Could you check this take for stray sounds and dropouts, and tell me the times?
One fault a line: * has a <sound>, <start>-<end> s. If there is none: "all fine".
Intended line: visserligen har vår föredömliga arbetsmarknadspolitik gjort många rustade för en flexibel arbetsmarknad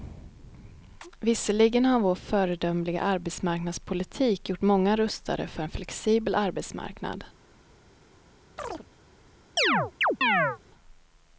* has a chirp, 8.6-8.9 s
* has a chirp, 9.6-10.6 s